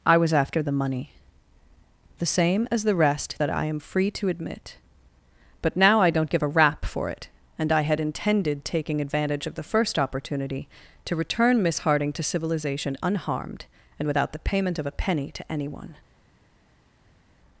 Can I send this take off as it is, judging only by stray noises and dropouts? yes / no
yes